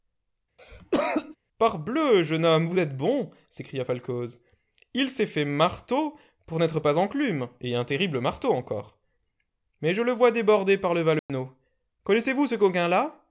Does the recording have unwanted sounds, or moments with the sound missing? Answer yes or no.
yes